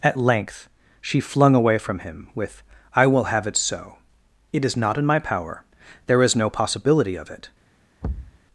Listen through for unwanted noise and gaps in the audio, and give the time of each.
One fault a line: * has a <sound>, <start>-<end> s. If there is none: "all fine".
* has a thud, 8.0-8.4 s